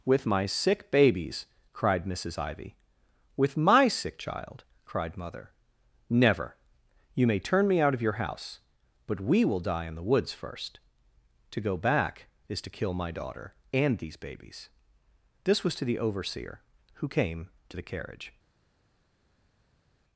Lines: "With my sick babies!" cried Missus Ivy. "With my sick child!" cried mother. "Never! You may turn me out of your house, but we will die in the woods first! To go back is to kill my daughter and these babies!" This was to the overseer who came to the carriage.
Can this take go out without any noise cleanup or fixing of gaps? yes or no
yes